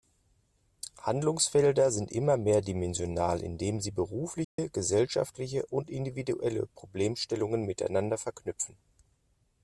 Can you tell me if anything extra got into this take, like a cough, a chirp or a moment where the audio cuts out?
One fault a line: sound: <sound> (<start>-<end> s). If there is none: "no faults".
sound: dropout (4.4-4.6 s)